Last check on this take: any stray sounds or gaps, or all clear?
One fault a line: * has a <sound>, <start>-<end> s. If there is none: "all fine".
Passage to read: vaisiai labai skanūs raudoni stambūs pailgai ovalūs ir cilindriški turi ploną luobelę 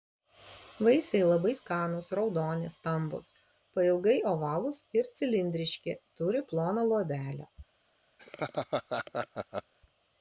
* has a laugh, 8.2-9.7 s